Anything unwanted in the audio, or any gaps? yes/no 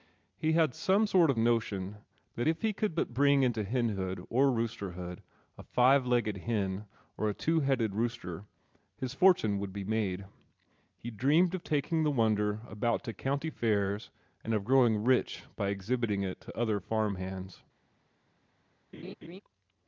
yes